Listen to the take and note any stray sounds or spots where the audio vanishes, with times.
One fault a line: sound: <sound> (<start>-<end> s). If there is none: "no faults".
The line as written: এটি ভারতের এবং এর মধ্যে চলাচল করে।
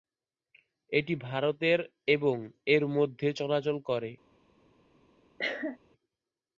sound: cough (5.4-5.8 s)